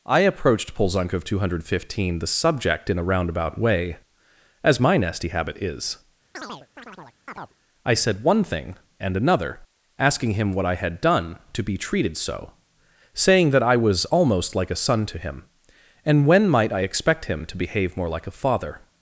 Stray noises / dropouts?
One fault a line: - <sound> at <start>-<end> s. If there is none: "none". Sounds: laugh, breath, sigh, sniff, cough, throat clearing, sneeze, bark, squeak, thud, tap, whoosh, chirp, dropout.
- chirp at 6.3-7.6 s